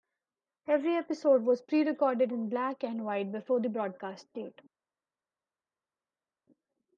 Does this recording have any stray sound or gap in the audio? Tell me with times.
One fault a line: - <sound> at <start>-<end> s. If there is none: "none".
none